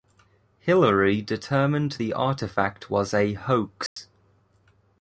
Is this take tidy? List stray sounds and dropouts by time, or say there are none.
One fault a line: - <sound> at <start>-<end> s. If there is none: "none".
- dropout at 3.9-4.0 s